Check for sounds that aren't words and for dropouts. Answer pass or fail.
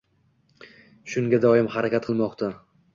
pass